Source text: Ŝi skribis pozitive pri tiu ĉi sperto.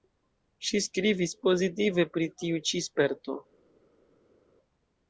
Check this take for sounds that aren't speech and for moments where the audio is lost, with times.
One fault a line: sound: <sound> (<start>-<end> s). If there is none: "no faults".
no faults